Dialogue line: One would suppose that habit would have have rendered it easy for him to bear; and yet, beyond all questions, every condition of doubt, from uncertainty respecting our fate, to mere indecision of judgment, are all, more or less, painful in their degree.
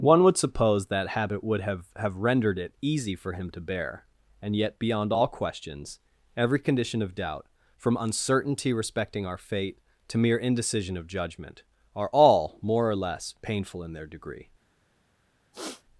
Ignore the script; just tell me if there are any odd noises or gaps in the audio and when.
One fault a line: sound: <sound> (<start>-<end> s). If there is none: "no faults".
sound: throat clearing (15.5-15.8 s)